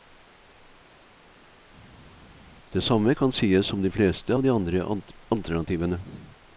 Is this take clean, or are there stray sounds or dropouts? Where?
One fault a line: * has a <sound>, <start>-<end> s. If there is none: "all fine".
all fine